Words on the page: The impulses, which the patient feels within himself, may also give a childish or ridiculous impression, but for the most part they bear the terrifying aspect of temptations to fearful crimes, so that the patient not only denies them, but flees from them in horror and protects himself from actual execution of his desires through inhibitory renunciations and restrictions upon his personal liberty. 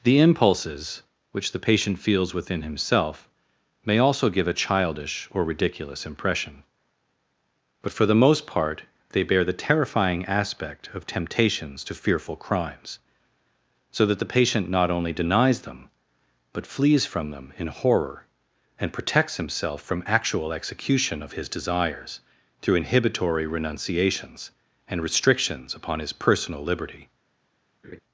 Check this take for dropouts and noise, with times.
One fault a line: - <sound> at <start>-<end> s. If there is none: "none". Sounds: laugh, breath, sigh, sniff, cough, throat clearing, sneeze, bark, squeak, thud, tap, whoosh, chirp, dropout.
- laugh at 27.8-28.0 s